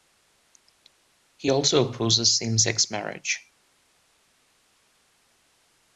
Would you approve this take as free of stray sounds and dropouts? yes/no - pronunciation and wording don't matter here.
yes